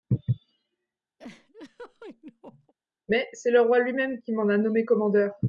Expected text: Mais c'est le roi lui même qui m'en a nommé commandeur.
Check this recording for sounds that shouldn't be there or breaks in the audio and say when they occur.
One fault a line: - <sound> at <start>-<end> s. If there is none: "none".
- laugh at 1.2-2.7 s